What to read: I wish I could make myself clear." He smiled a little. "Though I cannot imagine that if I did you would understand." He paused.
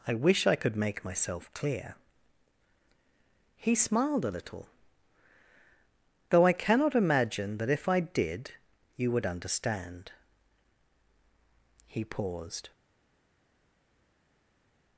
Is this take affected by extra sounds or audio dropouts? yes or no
no